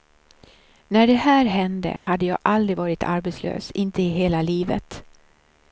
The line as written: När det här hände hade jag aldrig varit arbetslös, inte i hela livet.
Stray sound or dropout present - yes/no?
yes